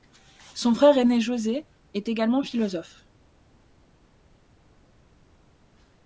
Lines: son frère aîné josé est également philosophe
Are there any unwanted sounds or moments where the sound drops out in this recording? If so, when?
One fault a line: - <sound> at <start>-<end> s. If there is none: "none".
none